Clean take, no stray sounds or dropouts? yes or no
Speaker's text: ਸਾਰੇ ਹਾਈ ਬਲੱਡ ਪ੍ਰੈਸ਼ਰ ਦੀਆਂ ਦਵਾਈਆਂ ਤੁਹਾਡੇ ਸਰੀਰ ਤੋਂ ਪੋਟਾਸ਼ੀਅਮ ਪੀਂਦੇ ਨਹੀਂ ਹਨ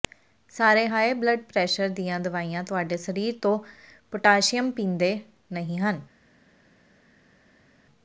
yes